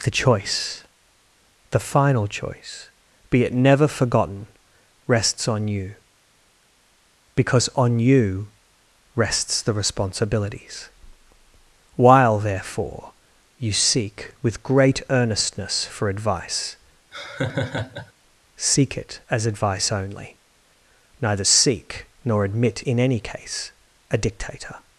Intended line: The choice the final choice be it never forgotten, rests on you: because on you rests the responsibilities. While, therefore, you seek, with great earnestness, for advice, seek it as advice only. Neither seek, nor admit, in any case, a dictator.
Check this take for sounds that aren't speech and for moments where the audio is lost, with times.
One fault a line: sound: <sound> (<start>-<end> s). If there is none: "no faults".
sound: laugh (17.1-18.1 s)